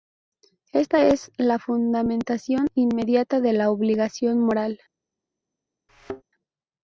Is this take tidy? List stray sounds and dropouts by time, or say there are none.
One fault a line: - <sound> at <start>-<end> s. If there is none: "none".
- thud at 5.9-6.2 s